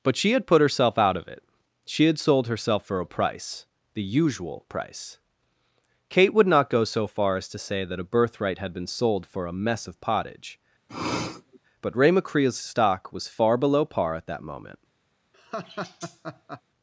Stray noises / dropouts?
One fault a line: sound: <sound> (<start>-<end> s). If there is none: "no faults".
sound: sniff (10.9-11.6 s)
sound: laugh (15.3-16.6 s)